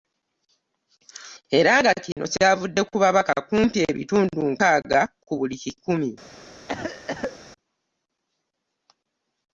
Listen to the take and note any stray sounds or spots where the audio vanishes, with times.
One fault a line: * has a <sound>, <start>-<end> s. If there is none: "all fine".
* has a dropout, 2.1-2.2 s
* has a cough, 6.7-7.4 s